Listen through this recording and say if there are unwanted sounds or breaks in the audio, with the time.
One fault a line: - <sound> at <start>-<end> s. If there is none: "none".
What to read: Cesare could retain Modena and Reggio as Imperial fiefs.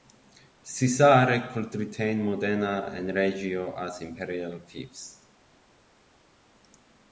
none